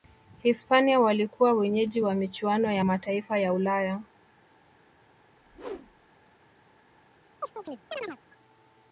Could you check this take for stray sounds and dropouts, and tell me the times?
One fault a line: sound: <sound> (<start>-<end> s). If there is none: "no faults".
sound: whoosh (5.3-6.1 s)
sound: chirp (7.4-8.2 s)